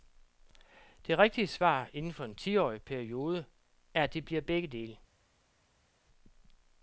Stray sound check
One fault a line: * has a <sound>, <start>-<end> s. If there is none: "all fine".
all fine